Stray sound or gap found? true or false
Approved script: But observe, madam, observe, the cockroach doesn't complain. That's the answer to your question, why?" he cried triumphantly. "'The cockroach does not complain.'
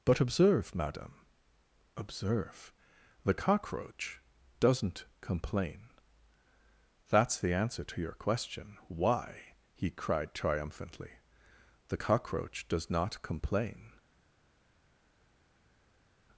false